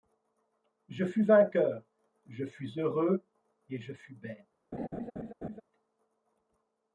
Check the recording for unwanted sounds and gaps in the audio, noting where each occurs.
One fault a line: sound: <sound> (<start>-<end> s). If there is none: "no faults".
sound: laugh (4.7-5.6 s)